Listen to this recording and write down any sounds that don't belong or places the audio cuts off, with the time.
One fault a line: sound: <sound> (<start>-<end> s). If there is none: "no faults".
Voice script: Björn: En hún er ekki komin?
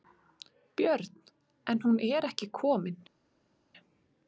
no faults